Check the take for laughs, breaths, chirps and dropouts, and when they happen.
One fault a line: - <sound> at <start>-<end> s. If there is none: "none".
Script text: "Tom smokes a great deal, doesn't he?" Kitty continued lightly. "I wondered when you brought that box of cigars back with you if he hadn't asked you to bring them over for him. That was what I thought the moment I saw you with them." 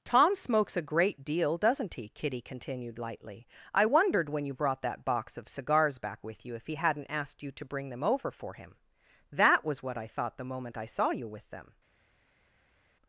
none